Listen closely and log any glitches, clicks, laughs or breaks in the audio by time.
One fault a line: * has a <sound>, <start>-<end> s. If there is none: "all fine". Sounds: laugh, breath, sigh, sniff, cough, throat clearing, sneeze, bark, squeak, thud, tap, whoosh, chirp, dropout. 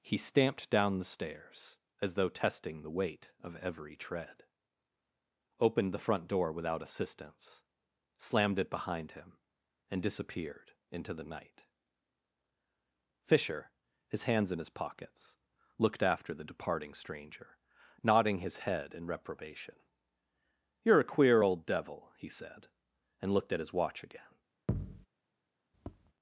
* has a thud, 24.7-25.1 s
* has a tap, 25.7-26.1 s